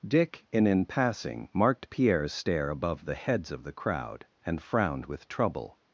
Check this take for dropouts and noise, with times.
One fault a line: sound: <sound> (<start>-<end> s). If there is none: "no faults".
no faults